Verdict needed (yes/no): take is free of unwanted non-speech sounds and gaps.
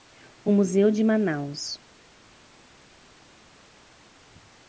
yes